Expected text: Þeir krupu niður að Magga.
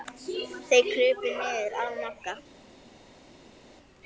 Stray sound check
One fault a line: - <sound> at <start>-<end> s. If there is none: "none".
none